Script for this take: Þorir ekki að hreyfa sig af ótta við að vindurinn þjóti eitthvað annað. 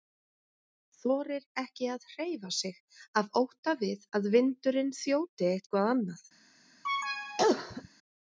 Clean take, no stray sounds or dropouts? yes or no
no